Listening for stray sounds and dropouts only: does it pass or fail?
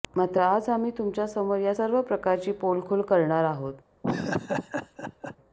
fail